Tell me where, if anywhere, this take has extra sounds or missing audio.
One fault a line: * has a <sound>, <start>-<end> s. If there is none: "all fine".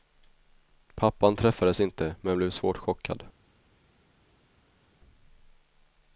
all fine